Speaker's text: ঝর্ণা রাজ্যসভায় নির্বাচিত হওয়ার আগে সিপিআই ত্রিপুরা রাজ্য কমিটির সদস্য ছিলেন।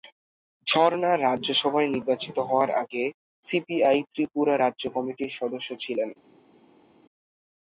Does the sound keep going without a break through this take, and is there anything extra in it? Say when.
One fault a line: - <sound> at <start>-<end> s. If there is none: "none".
none